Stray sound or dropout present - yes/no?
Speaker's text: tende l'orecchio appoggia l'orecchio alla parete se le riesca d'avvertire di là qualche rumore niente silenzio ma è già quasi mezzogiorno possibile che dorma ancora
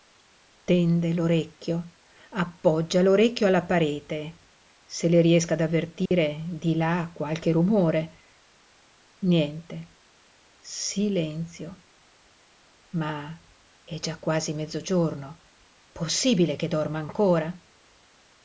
yes